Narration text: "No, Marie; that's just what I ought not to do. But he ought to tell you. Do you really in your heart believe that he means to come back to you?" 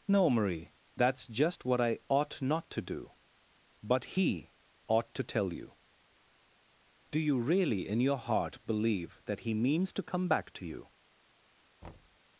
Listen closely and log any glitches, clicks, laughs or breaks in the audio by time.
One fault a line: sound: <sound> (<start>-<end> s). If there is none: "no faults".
sound: thud (11.8-12.2 s)